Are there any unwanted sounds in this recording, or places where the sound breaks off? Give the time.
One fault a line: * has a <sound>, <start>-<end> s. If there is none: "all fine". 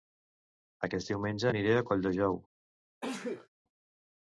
* has a sneeze, 3.0-3.5 s